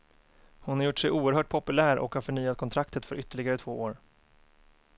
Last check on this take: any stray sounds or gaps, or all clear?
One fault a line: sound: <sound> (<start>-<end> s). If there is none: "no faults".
no faults